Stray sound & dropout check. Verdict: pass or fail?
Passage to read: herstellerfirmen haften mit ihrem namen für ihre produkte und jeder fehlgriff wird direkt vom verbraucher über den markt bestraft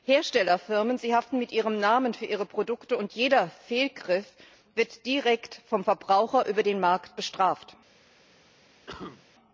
fail